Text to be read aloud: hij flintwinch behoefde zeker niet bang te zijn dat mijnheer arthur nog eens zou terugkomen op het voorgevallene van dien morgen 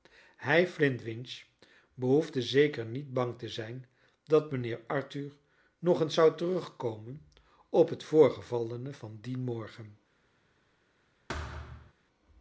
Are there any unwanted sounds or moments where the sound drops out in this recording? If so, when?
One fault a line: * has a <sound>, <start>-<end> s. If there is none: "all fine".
* has a thud, 11.3-11.9 s